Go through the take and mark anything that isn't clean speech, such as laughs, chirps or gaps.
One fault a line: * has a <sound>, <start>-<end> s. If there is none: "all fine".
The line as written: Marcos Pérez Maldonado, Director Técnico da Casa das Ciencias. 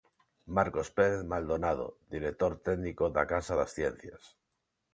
all fine